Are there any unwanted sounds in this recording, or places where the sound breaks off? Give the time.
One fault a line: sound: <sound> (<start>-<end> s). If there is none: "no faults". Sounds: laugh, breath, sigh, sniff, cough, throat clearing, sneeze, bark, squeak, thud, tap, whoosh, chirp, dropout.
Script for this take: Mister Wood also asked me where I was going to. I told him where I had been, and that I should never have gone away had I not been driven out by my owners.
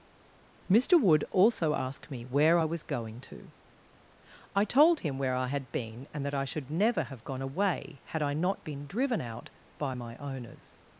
no faults